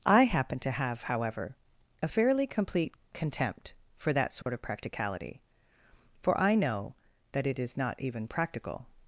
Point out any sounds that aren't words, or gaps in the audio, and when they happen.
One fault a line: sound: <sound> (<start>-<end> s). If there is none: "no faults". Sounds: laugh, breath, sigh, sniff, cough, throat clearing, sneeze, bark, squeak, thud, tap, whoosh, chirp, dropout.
sound: dropout (4.4-4.5 s)